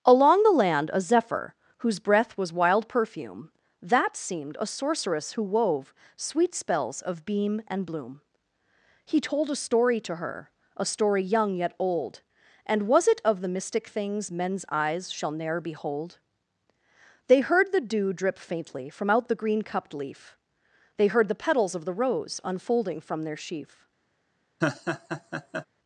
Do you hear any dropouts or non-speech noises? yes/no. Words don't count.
yes